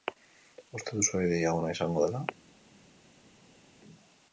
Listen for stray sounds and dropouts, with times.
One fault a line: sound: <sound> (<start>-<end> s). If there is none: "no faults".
no faults